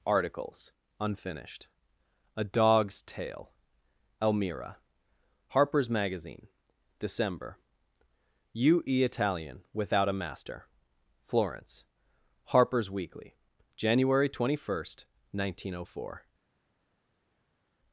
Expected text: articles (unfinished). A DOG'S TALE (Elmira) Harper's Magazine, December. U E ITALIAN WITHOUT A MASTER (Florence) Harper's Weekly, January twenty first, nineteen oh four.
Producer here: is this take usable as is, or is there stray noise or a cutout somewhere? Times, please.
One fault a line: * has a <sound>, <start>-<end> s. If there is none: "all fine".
all fine